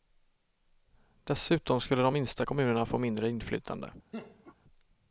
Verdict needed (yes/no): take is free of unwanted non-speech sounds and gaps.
no